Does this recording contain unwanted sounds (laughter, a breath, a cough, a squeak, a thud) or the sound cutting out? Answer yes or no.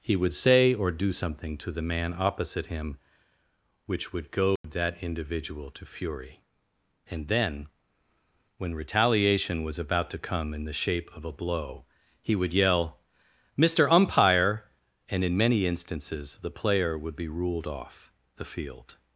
yes